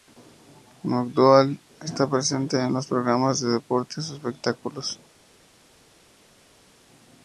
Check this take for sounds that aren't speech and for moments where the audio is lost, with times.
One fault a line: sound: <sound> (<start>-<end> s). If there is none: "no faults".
no faults